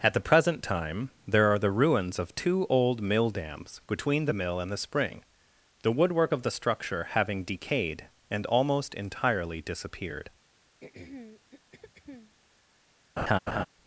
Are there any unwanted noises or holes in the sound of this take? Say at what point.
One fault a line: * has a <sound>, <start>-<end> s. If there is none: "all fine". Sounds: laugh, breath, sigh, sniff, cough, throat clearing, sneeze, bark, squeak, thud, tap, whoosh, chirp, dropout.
* has a throat clearing, 10.8-12.4 s
* has a laugh, 13.2-13.7 s